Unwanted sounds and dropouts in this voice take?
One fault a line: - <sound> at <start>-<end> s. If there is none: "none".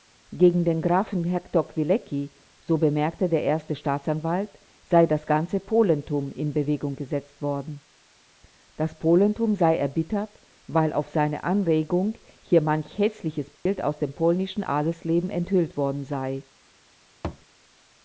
- dropout at 13.6-13.7 s
- thud at 17.2-17.5 s